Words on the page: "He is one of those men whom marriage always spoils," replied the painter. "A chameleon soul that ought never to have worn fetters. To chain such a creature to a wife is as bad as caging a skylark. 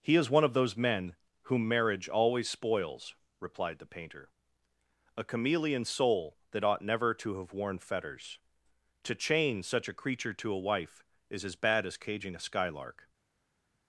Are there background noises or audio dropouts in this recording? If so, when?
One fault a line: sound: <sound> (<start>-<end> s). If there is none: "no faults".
no faults